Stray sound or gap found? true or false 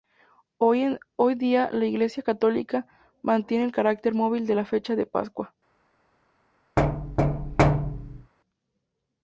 true